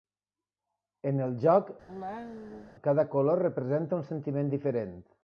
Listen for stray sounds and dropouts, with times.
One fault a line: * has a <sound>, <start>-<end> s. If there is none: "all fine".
* has a cough, 1.9-2.7 s